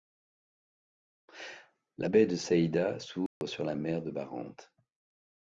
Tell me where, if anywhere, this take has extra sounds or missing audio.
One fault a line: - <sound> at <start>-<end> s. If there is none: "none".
- dropout at 3.3-3.4 s